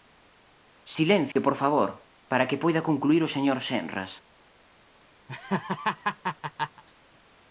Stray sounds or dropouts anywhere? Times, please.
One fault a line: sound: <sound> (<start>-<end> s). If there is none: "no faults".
sound: dropout (1.3-1.4 s)
sound: laugh (5.3-6.8 s)